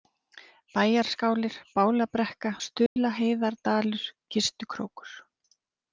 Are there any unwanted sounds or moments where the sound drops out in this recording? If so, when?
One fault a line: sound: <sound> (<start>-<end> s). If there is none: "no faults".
sound: dropout (2.9-3.0 s)